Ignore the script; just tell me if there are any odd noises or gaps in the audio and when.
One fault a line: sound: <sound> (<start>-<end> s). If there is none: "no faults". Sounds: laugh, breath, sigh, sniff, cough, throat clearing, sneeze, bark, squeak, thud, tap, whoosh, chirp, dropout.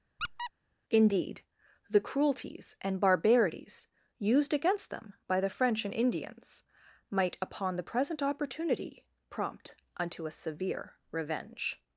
sound: squeak (0.2-0.5 s)